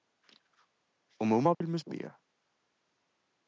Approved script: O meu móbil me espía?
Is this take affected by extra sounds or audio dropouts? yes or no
yes